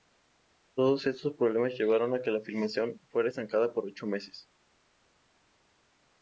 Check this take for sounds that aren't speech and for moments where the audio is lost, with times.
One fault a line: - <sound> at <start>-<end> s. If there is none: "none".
none